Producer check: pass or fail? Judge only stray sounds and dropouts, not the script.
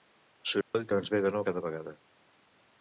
fail